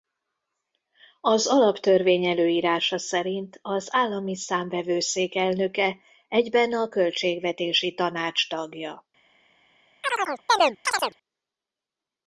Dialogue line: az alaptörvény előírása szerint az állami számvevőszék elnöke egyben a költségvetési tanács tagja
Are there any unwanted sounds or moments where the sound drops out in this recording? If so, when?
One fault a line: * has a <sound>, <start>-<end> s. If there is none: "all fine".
* has a chirp, 10.0-11.2 s